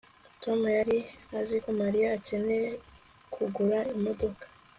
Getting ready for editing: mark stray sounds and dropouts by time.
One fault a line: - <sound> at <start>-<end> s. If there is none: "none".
none